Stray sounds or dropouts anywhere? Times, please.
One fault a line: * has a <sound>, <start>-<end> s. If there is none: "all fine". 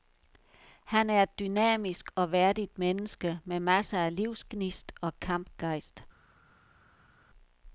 all fine